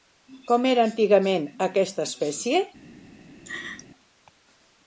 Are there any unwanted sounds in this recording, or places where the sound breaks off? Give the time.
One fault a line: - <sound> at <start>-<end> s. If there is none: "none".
- laugh at 3.4-3.9 s